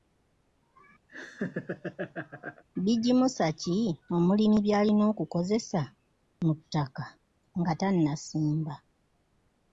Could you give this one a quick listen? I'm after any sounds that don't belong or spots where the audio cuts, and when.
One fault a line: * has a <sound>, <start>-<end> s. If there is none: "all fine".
* has a laugh, 1.1-2.6 s